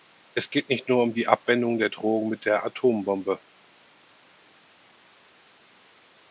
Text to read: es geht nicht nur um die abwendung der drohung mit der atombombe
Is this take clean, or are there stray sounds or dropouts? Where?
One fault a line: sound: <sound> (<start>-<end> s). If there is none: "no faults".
no faults